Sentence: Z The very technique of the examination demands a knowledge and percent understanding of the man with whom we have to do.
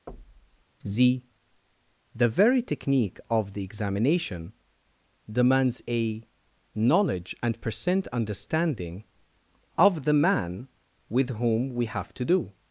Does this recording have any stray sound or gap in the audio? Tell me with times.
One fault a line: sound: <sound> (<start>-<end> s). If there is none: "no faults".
sound: thud (0.1-0.6 s)